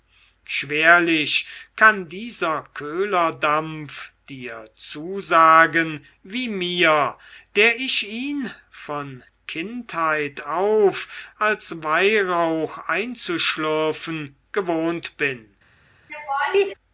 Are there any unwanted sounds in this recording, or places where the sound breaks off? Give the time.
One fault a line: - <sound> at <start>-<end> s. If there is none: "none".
- laugh at 16.1-16.7 s